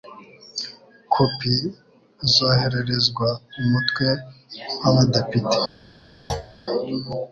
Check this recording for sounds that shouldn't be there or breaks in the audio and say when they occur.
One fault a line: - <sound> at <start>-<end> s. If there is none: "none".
- thud at 6.3-6.6 s